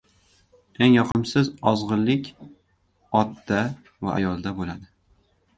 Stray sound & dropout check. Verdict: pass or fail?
fail